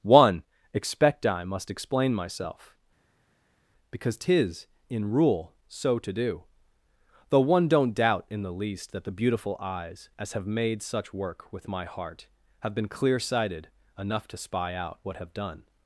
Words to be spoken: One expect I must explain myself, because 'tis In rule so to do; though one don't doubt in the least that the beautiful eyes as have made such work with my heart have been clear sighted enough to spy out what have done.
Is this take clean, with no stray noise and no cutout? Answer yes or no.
yes